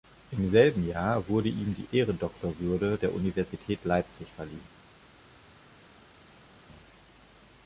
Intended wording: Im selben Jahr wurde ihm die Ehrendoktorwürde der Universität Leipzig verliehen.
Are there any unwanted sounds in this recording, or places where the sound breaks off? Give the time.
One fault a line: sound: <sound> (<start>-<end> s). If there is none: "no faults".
no faults